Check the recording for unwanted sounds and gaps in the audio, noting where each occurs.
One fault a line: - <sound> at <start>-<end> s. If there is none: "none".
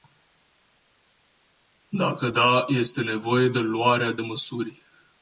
none